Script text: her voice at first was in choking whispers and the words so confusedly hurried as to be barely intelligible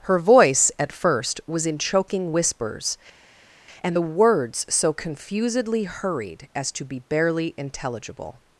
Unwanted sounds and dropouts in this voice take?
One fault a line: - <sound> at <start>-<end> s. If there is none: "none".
none